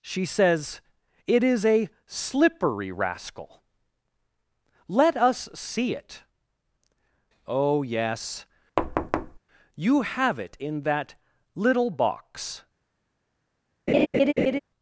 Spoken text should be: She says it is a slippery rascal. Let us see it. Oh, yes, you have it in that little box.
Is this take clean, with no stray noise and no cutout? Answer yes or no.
no